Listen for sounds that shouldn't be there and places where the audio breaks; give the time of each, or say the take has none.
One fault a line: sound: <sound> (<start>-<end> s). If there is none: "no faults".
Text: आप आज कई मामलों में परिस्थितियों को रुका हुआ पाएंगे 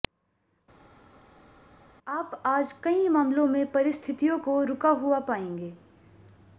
no faults